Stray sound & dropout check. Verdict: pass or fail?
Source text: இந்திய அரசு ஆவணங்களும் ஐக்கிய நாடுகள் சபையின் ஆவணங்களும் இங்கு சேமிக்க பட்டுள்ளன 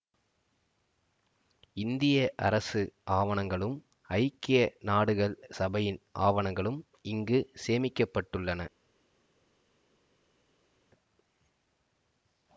pass